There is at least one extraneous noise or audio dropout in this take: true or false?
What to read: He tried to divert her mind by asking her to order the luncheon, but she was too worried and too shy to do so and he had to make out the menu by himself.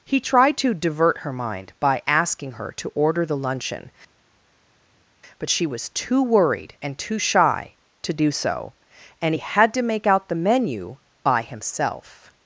false